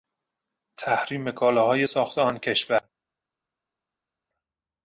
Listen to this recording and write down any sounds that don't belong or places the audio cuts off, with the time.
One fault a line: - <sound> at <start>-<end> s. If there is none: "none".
none